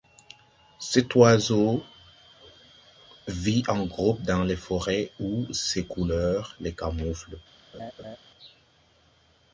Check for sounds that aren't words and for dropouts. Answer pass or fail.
fail